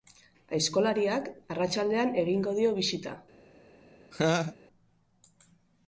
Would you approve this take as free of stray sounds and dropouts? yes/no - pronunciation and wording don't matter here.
no